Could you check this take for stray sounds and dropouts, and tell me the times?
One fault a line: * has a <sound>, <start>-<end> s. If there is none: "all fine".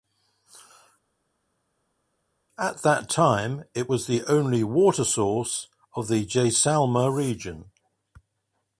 all fine